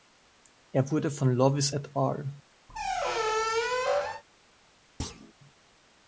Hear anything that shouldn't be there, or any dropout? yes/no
yes